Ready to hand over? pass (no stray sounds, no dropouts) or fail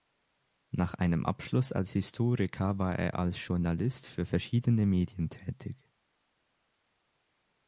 pass